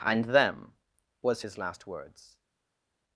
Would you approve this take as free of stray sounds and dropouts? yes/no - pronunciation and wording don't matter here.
yes